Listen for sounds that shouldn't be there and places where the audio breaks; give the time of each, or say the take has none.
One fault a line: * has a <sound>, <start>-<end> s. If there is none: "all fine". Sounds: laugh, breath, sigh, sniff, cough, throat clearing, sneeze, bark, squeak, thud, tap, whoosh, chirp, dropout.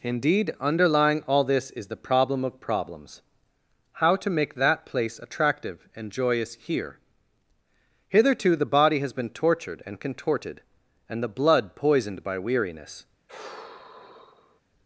* has a sigh, 13.3-14.6 s